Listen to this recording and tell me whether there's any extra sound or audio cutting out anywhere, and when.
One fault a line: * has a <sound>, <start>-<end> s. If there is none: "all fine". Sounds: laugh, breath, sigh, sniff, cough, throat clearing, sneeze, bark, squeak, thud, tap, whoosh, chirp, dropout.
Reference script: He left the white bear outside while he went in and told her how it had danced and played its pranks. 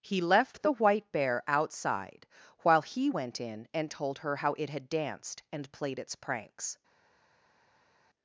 all fine